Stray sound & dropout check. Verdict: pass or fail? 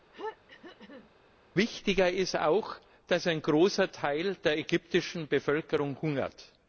fail